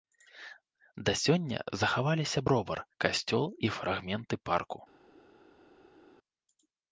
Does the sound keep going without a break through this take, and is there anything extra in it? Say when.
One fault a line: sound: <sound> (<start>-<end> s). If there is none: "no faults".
no faults